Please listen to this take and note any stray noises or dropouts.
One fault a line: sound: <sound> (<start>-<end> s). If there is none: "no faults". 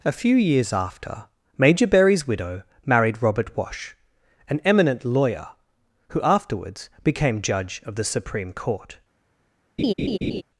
sound: laugh (9.8-10.4 s)